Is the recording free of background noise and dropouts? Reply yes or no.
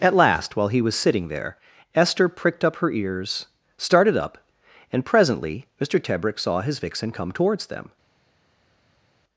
yes